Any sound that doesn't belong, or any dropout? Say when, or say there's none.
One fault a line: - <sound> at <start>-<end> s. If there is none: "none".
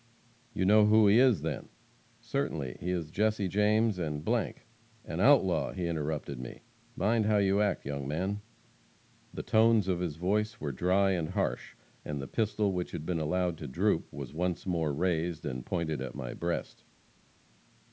none